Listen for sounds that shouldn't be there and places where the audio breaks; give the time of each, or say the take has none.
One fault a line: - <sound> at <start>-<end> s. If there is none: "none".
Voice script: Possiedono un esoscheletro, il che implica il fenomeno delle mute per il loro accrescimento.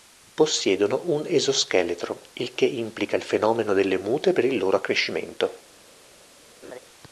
- laugh at 6.6-6.8 s